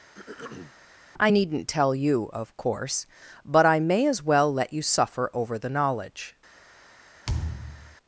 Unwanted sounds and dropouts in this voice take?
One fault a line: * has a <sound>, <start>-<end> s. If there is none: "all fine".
* has a throat clearing, 0.1-0.7 s
* has a thud, 7.3-8.0 s